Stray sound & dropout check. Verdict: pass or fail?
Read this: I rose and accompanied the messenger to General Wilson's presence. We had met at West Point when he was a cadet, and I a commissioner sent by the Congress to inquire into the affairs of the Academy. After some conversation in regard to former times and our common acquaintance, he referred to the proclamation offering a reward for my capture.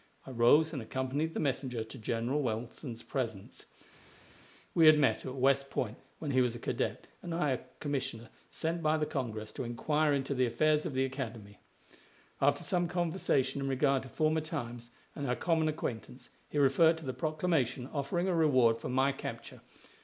pass